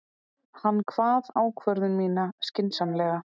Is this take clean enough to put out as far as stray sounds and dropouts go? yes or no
yes